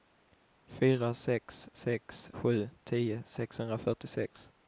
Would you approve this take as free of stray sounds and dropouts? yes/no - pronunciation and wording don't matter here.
yes